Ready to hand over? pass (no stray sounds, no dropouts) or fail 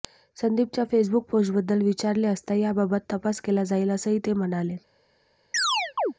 fail